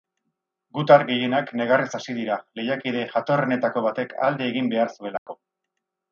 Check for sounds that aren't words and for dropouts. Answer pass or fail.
fail